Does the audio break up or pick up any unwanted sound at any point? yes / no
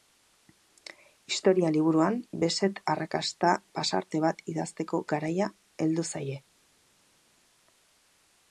no